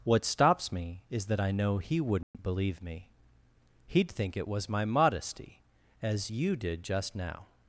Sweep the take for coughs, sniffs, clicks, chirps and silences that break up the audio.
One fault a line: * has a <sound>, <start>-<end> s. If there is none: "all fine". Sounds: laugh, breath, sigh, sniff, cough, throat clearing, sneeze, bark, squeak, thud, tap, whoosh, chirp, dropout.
* has a dropout, 2.2-2.3 s